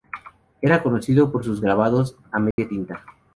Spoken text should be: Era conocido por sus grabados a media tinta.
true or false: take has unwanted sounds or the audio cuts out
true